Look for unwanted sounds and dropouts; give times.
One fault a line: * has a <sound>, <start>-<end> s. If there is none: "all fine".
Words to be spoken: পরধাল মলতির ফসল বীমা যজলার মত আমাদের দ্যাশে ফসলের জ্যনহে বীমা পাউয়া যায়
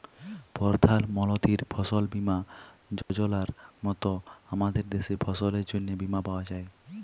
* has a dropout, 3.0-3.1 s